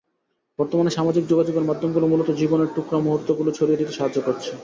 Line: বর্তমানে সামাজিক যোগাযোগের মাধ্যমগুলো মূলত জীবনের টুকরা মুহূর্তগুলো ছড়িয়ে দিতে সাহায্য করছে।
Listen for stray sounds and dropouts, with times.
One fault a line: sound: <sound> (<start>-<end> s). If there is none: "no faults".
no faults